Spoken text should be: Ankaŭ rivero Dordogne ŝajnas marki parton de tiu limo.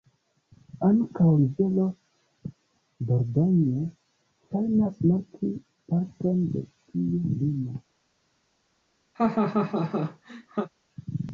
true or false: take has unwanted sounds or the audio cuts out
true